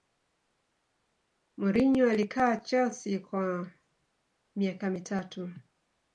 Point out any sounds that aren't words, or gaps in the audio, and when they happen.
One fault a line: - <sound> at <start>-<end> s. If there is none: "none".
none